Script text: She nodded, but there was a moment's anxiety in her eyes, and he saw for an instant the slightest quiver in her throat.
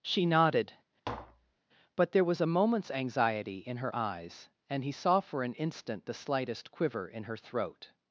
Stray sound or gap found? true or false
true